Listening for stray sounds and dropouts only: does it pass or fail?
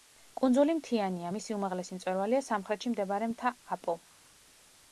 pass